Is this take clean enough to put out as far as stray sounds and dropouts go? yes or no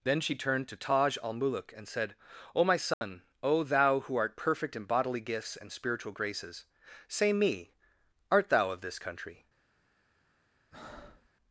no